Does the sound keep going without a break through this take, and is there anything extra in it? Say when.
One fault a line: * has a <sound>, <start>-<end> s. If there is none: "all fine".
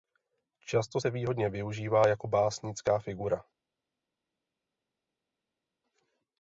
all fine